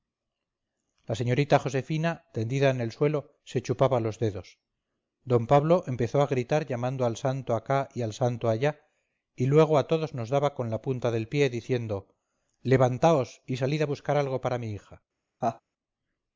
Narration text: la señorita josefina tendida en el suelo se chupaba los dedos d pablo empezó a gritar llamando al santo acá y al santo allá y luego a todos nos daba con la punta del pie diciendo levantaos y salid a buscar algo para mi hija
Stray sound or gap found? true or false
true